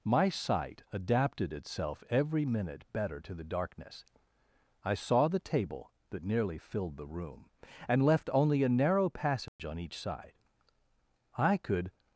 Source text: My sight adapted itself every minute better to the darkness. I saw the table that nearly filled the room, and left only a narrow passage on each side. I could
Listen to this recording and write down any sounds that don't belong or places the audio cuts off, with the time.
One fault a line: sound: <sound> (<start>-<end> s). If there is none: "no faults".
sound: dropout (9.5-9.6 s)